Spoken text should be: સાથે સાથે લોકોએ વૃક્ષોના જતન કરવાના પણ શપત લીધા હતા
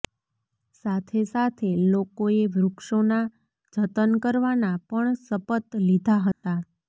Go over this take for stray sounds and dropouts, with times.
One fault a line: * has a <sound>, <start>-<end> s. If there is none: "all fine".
* has a dropout, 6.3-6.4 s